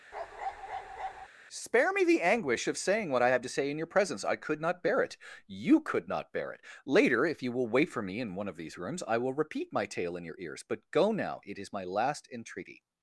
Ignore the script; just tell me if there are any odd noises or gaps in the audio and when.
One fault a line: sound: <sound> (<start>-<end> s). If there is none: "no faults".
sound: bark (0.1-1.3 s)